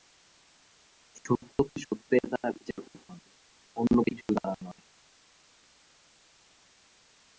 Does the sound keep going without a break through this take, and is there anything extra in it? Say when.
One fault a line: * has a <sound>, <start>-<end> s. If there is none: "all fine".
all fine